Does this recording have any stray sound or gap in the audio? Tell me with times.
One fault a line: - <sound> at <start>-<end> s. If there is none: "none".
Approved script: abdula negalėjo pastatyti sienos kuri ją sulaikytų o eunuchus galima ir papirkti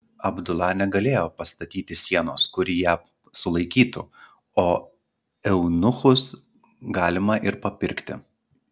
none